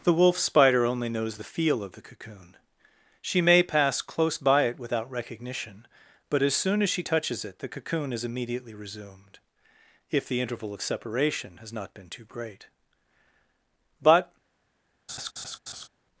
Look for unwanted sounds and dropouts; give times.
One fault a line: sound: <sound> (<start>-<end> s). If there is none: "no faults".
sound: laugh (15.1-15.9 s)